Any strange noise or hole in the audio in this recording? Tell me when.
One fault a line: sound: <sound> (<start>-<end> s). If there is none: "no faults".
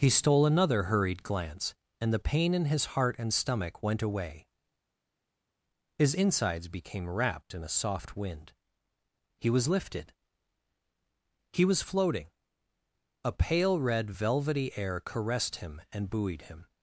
no faults